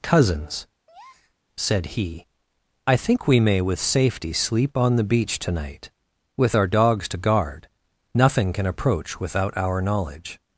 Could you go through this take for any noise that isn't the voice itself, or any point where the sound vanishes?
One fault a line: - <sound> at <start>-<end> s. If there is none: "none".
- breath at 0.9-1.3 s